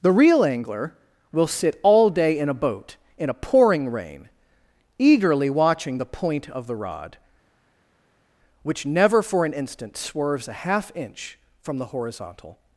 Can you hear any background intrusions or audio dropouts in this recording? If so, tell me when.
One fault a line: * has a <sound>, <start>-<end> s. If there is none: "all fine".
all fine